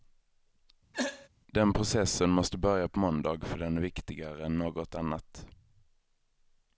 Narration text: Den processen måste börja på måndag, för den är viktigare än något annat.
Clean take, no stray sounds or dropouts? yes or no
no